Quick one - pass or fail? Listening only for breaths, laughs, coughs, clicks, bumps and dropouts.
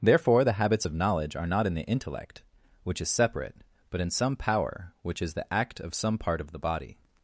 pass